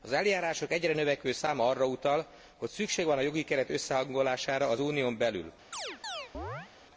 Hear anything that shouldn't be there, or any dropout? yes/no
yes